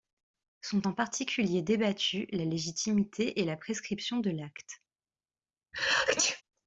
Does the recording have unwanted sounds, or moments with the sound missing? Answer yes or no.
yes